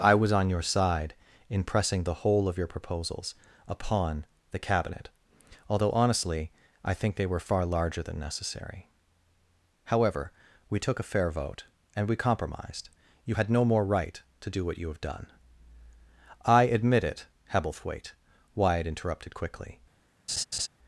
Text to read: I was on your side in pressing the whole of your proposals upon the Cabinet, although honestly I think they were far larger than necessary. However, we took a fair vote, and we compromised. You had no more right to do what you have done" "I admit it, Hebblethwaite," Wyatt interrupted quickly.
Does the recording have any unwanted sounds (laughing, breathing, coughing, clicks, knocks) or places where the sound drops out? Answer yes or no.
yes